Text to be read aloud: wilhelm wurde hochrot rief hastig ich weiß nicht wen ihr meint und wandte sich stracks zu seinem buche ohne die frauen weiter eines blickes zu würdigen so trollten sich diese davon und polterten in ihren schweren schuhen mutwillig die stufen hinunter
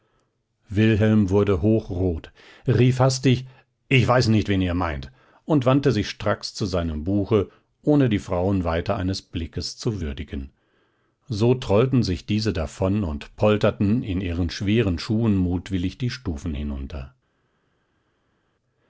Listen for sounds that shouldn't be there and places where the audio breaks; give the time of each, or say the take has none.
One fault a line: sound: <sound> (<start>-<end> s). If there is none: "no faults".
no faults